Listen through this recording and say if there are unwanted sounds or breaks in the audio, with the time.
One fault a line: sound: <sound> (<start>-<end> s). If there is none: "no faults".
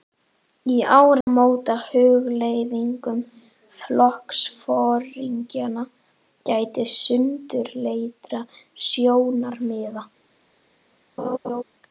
sound: dropout (1.2-1.3 s)
sound: laugh (11.2-11.6 s)